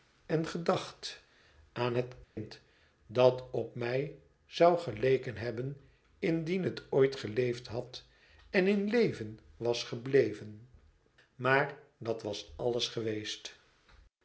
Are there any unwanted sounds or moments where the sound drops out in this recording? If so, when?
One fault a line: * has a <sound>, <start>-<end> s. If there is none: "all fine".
* has a dropout, 2.2-2.4 s